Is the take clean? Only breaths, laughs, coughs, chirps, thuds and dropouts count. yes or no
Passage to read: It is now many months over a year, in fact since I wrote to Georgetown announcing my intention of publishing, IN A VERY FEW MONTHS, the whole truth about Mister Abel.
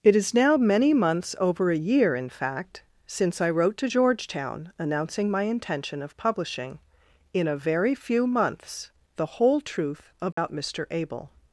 no